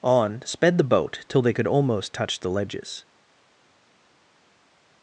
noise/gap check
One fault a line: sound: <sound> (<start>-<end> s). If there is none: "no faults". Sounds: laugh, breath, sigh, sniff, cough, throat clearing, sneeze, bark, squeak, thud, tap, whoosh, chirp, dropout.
no faults